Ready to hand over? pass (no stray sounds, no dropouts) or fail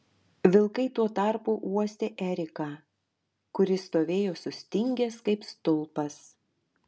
pass